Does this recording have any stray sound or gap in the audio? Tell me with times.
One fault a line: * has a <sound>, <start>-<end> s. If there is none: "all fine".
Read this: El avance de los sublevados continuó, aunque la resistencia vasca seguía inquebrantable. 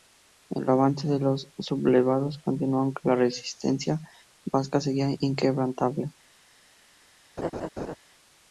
* has a laugh, 7.4-8.0 s